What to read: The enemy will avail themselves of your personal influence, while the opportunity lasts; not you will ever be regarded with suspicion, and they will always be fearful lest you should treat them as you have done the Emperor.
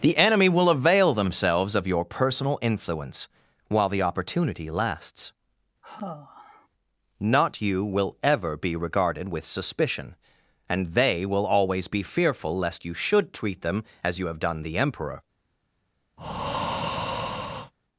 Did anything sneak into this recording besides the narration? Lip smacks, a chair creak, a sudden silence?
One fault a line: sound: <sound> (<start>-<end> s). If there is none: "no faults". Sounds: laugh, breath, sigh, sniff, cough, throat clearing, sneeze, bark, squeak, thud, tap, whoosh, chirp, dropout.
sound: sigh (5.8-6.7 s)
sound: breath (16.2-17.7 s)